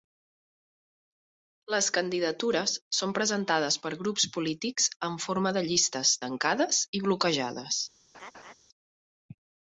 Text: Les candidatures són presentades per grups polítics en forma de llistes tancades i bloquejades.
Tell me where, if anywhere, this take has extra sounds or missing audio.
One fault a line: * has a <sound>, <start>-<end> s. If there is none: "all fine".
* has a laugh, 8.1-8.5 s